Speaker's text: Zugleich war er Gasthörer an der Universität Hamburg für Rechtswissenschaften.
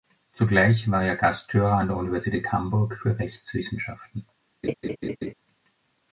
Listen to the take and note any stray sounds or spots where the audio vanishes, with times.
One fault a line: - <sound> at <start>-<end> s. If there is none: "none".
- laugh at 4.6-5.3 s